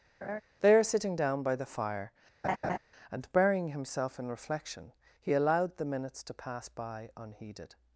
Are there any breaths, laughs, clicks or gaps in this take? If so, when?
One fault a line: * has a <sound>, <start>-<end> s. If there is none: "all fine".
* has a laugh, 0.2-0.4 s
* has a laugh, 2.4-2.8 s